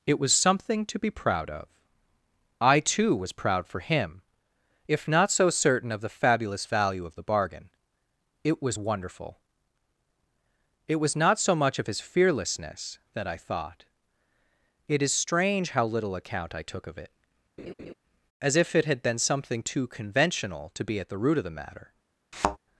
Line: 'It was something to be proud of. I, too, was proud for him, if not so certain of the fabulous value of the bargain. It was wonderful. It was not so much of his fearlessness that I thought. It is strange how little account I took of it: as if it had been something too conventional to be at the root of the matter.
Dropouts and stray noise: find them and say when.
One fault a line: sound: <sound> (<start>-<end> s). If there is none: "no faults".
sound: laugh (17.6-17.9 s)
sound: thud (22.3-22.6 s)